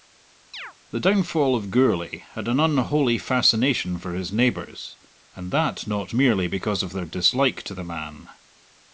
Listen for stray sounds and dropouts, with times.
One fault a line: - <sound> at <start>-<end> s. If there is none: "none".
- chirp at 0.5-0.7 s